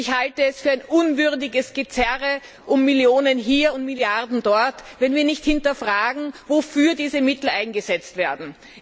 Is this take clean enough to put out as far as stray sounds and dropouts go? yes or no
yes